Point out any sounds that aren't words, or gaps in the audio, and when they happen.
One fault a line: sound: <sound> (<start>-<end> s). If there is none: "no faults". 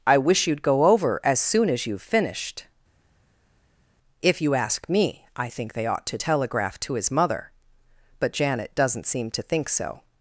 no faults